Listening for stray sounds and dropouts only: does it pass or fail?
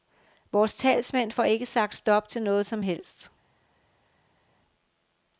pass